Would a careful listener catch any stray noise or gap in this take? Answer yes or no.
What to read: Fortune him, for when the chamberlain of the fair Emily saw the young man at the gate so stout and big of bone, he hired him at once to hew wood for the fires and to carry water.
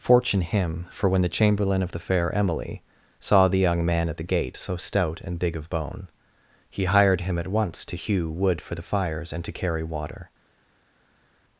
no